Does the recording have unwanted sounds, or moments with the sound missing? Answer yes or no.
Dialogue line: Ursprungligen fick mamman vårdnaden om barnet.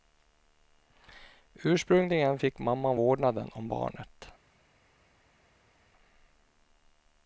no